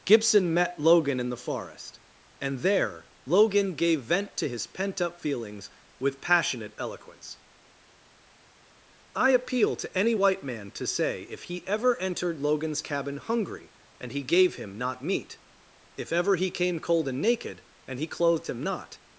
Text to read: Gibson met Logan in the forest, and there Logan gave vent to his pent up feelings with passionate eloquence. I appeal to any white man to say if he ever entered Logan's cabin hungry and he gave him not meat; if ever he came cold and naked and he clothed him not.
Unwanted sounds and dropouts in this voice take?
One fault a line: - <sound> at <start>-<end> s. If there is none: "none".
none